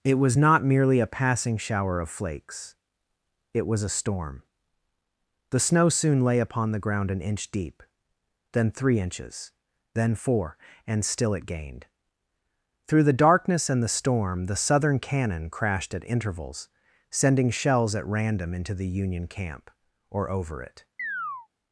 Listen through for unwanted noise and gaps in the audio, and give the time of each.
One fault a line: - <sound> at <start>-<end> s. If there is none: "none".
- chirp at 21.0-21.5 s